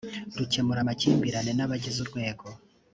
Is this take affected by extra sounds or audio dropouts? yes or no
no